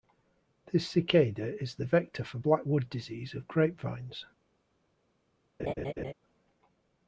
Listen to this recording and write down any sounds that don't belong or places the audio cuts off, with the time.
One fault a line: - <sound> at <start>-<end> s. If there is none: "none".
- laugh at 5.6-6.1 s